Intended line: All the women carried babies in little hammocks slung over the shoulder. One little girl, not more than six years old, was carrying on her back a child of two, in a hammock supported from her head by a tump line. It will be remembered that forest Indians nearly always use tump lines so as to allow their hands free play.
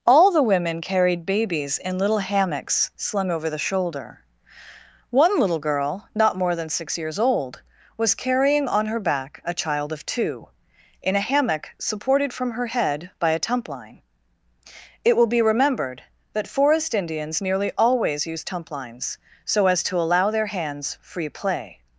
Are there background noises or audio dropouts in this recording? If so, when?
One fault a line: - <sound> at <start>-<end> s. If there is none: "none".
none